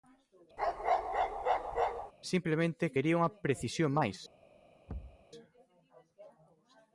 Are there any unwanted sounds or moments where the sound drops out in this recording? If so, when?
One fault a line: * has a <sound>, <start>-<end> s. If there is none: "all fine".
* has a bark, 0.6-2.1 s
* has a thud, 4.9-5.3 s